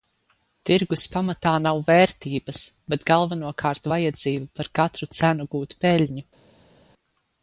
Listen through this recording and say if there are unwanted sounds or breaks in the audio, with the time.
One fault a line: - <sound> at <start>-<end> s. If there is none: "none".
none